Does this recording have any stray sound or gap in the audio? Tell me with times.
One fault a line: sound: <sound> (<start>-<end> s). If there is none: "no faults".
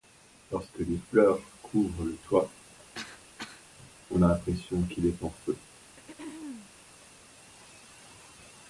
sound: cough (2.9-3.7 s)
sound: throat clearing (5.8-6.7 s)